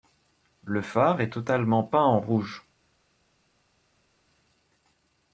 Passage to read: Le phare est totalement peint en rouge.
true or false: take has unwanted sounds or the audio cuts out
false